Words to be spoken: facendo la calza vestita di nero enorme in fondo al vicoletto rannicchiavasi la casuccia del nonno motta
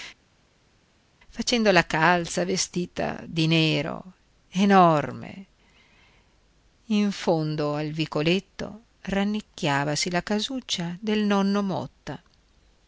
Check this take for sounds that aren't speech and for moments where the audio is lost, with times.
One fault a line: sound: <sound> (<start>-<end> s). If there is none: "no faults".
no faults